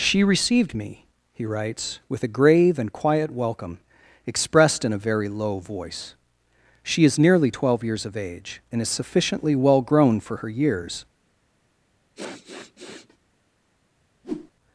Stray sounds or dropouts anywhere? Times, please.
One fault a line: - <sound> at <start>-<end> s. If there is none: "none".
- sniff at 12.2-13.2 s
- whoosh at 14.2-14.5 s